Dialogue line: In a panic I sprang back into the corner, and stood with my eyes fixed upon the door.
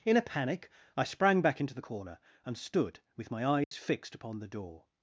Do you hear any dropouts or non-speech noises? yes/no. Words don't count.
yes